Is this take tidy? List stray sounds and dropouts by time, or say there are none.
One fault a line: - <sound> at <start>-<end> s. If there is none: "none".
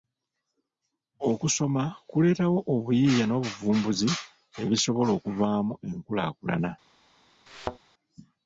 - thud at 7.5-7.8 s